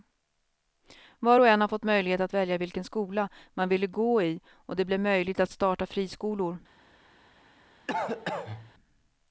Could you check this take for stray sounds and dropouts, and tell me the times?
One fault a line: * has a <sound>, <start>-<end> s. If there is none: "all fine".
* has a cough, 7.9-8.7 s